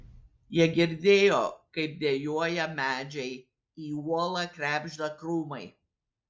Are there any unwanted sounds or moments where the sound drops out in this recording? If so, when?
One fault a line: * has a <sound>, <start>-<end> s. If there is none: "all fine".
all fine